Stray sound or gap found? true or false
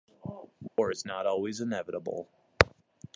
true